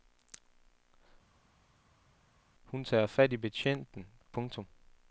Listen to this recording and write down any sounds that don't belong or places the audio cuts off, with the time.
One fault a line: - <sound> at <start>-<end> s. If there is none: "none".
none